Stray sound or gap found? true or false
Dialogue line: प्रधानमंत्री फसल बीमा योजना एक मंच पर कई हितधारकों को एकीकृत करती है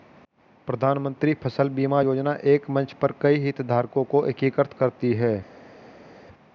false